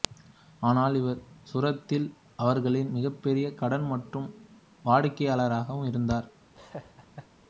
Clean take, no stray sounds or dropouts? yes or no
no